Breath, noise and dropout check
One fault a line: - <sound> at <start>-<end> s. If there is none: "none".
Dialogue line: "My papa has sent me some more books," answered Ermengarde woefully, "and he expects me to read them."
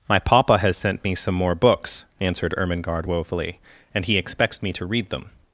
none